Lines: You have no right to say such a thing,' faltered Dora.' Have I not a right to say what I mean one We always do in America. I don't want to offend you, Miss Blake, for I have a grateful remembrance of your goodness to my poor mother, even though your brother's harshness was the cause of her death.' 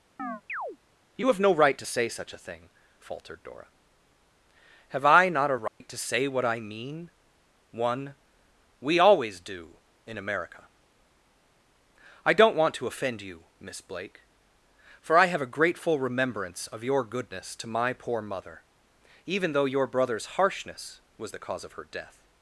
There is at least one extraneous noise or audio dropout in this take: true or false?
true